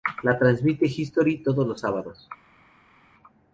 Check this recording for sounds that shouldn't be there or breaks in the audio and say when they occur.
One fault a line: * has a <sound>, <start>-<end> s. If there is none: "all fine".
all fine